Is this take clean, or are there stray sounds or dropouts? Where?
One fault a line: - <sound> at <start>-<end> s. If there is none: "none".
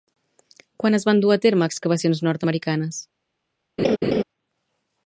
- laugh at 3.8-4.2 s